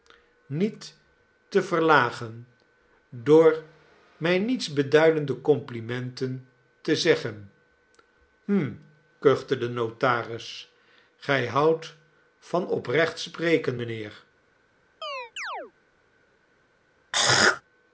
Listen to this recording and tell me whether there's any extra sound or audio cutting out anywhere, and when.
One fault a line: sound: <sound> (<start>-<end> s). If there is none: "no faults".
sound: chirp (15.0-15.7 s)
sound: throat clearing (17.1-17.6 s)